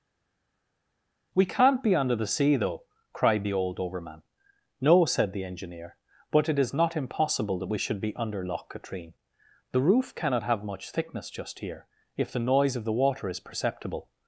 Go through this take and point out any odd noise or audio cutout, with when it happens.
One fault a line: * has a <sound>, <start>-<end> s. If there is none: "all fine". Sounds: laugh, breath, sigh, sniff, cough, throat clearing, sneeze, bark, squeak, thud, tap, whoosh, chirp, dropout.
all fine